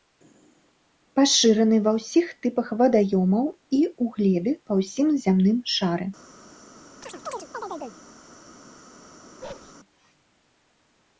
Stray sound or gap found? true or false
true